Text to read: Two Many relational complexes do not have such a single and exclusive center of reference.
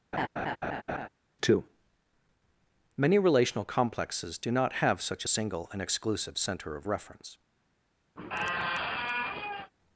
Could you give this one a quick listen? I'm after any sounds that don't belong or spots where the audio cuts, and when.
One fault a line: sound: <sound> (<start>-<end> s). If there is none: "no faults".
sound: laugh (0.1-1.1 s)
sound: squeak (8.2-9.7 s)